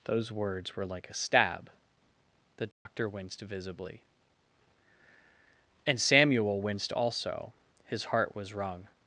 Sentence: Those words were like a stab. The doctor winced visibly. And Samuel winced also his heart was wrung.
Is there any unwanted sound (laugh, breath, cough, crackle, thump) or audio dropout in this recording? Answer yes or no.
yes